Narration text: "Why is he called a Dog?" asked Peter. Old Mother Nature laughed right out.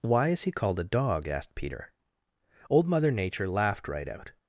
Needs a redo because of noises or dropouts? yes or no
no